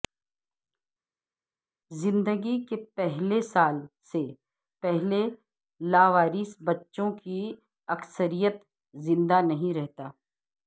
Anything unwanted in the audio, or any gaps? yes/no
no